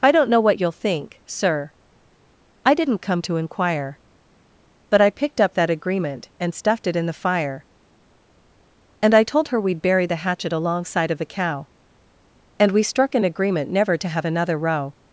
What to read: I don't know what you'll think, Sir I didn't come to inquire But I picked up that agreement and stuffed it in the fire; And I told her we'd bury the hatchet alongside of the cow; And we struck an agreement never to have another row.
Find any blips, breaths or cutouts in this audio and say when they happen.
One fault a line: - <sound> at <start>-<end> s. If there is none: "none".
none